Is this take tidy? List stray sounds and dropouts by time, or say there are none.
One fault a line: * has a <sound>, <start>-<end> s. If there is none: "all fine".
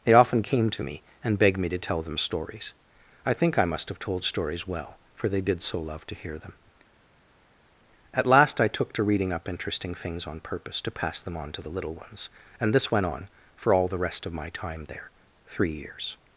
all fine